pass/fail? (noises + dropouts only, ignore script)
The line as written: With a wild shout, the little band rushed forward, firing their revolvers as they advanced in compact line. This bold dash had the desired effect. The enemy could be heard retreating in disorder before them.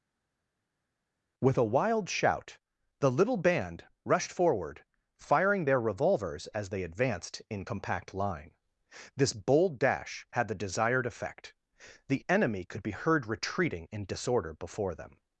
pass